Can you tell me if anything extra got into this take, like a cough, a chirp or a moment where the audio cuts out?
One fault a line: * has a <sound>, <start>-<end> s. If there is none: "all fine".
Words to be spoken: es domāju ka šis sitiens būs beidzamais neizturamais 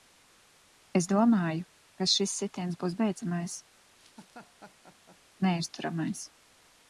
* has a laugh, 4.0-5.2 s